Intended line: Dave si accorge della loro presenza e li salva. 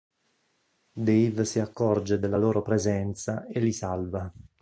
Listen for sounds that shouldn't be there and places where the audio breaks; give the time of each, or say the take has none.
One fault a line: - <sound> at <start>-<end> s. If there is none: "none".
none